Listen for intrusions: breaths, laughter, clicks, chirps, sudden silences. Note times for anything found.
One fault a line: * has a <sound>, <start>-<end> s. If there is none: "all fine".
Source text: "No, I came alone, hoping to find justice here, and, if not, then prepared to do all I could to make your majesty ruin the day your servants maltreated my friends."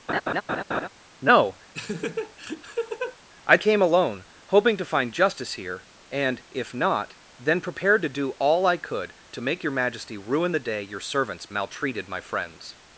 * has a laugh, 0.1-0.9 s
* has a laugh, 1.7-3.2 s